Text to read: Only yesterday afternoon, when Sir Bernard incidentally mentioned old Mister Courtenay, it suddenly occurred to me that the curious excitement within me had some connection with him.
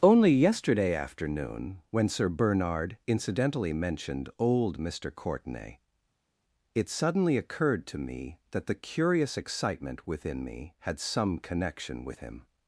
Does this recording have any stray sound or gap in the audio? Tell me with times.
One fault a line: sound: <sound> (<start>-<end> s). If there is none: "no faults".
no faults